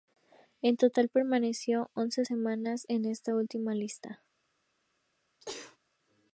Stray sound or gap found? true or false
true